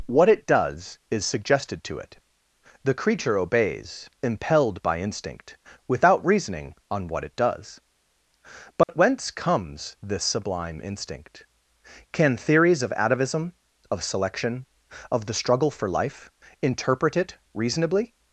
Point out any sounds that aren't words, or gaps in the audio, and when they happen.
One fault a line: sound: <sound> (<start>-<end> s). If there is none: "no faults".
sound: dropout (8.8-8.9 s)